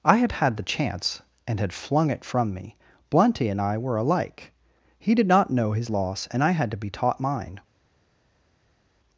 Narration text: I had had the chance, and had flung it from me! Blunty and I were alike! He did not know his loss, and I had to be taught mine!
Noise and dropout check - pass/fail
pass